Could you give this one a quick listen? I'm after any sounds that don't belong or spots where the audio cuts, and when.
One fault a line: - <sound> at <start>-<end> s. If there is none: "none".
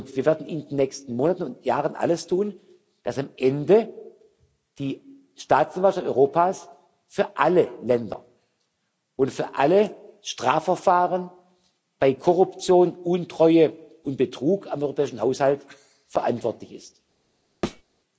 - thud at 17.6-17.8 s